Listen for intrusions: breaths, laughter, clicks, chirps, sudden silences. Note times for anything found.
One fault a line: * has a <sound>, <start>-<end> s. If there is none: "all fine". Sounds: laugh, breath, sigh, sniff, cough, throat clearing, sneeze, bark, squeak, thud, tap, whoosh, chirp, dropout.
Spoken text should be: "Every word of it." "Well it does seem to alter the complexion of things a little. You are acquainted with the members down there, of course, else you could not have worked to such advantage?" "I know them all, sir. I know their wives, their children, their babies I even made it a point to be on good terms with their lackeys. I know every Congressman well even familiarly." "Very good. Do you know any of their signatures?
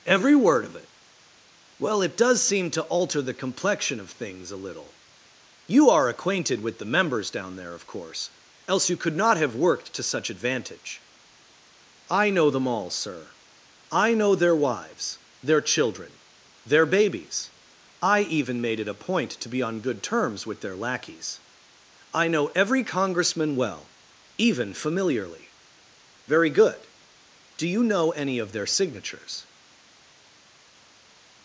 all fine